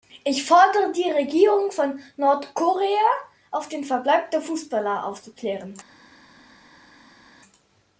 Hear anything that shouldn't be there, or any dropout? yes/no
no